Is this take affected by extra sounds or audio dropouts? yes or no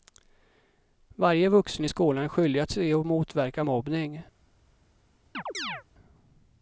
yes